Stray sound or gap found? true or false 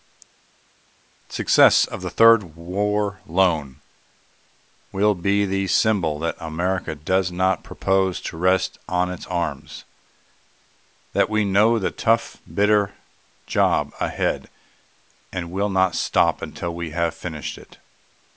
false